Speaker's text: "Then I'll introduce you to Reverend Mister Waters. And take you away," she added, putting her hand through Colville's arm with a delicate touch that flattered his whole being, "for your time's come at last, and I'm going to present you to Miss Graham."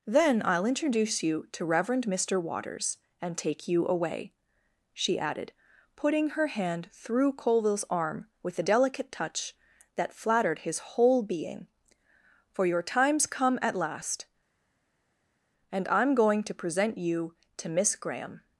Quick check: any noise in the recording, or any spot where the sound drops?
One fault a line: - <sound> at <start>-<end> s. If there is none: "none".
none